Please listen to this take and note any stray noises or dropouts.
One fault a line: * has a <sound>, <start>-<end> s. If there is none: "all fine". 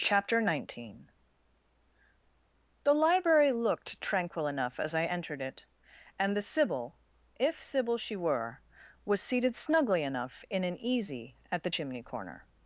all fine